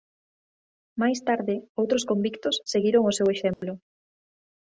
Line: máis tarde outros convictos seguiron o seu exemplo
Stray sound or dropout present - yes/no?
yes